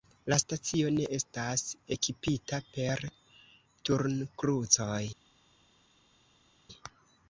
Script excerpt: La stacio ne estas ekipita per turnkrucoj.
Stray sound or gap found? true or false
false